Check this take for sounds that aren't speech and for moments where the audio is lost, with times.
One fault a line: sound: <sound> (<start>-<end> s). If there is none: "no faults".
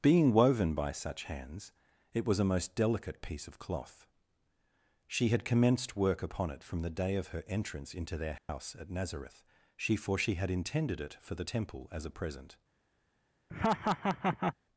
sound: dropout (8.4-8.5 s)
sound: laugh (13.5-14.5 s)